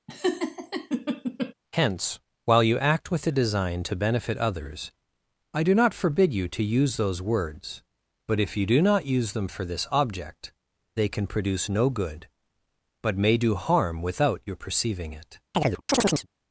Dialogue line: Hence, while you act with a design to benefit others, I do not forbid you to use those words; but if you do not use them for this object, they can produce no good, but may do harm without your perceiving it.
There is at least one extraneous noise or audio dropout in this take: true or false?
true